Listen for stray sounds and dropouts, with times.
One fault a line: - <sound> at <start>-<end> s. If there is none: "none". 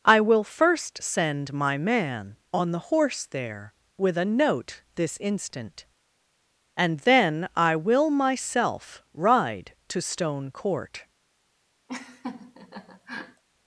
- laugh at 11.9-13.4 s